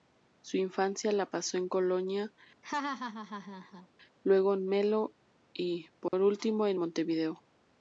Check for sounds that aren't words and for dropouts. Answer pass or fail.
fail